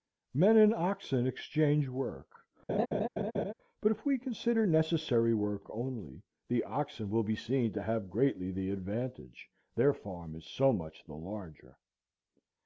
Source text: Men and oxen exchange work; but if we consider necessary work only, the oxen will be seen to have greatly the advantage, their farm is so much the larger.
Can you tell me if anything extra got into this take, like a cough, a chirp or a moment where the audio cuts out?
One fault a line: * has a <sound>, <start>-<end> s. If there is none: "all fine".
* has a laugh, 2.7-3.5 s